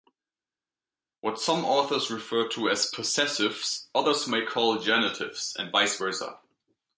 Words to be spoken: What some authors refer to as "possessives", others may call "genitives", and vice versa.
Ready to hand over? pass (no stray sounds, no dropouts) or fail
pass